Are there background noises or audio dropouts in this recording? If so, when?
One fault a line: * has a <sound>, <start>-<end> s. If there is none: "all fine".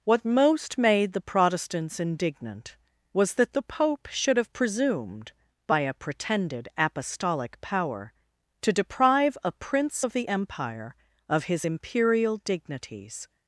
all fine